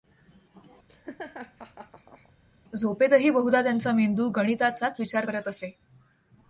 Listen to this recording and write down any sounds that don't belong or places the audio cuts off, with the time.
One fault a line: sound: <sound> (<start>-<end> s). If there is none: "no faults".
sound: laugh (0.9-2.3 s)